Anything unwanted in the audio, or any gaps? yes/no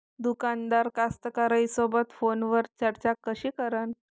no